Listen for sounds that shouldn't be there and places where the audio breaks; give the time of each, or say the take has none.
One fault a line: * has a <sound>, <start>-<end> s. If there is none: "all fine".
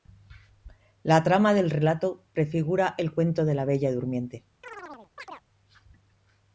* has a chirp, 4.6-5.4 s